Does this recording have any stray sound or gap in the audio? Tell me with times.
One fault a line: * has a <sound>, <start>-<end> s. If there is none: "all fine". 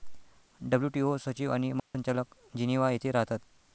* has a dropout, 1.8-1.9 s